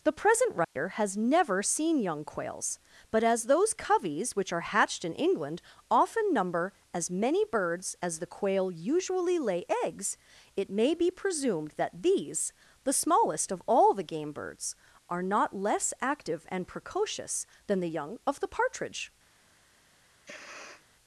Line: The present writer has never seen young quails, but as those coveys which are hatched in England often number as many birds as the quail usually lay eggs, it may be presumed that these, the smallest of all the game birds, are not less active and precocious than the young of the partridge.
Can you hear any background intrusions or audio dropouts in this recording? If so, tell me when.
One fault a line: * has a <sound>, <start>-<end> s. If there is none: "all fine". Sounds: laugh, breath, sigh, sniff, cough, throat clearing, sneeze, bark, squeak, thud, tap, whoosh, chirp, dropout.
* has a dropout, 0.6-0.8 s
* has a sniff, 20.2-20.9 s